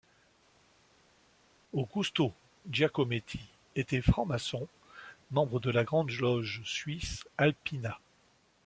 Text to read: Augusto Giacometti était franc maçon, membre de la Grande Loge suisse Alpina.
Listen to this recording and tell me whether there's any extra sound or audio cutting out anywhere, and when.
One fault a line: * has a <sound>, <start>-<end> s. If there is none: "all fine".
all fine